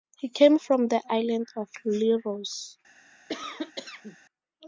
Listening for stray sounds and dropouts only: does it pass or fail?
fail